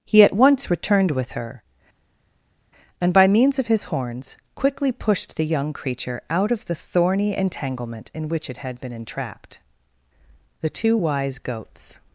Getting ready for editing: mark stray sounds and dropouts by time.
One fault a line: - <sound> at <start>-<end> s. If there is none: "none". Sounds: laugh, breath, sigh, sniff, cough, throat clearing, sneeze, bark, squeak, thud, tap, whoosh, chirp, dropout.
none